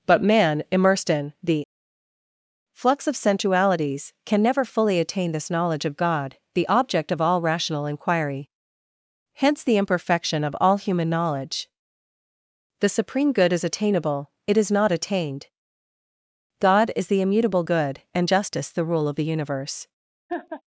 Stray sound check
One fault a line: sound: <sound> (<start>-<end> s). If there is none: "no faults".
sound: laugh (20.3-20.6 s)